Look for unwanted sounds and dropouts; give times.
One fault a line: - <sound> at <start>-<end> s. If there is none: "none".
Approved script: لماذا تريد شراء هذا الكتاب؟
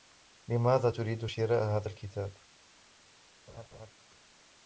- laugh at 3.5-3.9 s